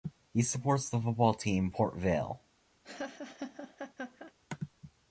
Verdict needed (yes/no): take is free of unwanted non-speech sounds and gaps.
no